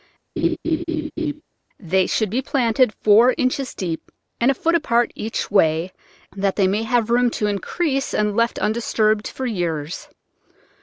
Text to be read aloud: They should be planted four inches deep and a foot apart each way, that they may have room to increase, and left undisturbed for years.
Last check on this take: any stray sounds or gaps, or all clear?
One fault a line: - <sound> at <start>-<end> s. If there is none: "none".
- laugh at 0.4-1.4 s